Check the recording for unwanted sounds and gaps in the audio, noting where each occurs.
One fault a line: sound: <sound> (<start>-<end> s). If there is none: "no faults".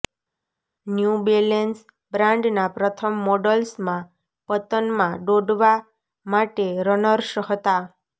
no faults